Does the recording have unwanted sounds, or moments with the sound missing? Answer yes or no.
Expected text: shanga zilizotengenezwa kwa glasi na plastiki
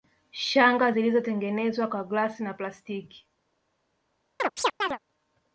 yes